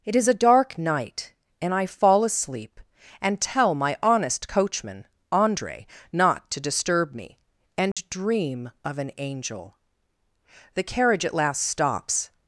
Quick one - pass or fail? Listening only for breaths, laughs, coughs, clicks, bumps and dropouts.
fail